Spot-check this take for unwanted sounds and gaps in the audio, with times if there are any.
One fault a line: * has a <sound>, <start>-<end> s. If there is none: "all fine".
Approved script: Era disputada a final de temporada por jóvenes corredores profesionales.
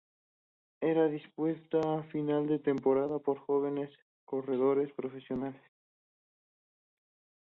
all fine